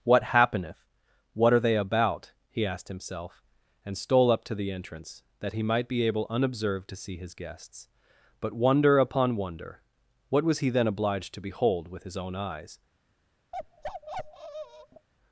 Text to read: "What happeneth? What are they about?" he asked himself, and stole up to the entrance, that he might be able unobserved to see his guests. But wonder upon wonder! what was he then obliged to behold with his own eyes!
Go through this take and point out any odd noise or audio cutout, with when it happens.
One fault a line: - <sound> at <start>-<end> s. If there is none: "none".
- bark at 13.5-15.1 s